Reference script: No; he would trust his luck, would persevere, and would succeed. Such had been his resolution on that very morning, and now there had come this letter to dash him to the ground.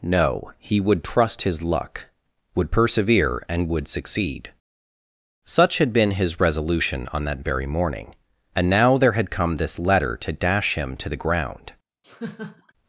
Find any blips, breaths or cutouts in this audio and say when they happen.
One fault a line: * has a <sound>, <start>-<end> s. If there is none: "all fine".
* has a laugh, 12.0-12.7 s